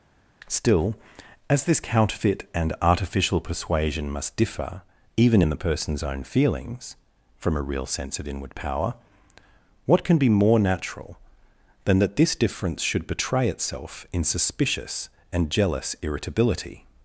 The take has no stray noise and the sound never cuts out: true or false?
true